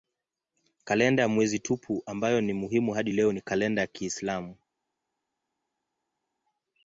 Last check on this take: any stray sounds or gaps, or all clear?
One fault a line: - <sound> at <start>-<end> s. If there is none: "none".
none